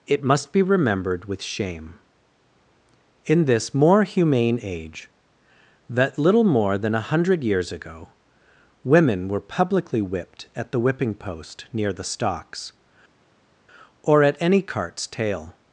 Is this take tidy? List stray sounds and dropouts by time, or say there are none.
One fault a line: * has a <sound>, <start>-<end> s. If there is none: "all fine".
all fine